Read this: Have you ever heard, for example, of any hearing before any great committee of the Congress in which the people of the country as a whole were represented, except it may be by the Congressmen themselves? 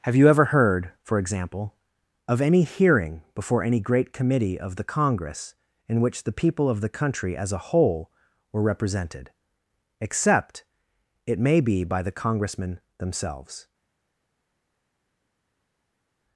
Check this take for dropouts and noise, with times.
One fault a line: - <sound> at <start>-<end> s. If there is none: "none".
none